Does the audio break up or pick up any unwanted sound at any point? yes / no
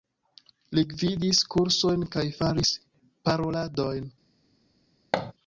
yes